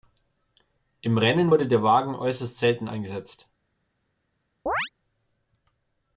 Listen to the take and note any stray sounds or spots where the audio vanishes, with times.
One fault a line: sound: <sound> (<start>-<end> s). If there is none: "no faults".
sound: chirp (4.7-4.9 s)